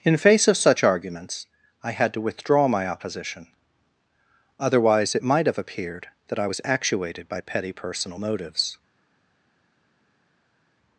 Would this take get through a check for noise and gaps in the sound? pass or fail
pass